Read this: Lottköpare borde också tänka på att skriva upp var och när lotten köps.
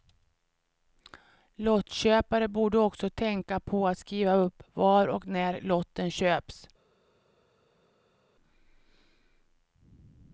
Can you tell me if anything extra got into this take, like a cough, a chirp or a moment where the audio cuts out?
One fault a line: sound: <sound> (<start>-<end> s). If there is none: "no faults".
no faults